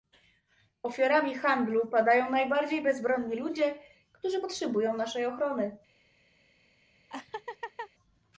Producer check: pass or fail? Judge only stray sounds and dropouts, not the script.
fail